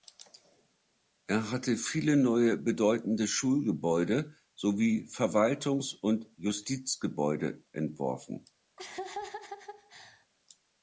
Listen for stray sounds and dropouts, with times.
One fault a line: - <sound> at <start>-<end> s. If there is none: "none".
- laugh at 8.8-10.3 s